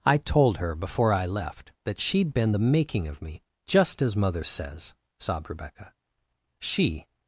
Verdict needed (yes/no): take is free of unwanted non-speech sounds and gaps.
yes